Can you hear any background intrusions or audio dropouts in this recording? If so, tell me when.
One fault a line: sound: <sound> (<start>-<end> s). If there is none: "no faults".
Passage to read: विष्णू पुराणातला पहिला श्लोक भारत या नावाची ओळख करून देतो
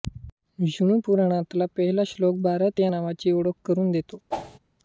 sound: whoosh (4.3-4.6 s)